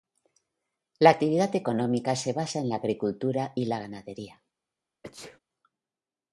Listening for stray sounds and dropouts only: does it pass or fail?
fail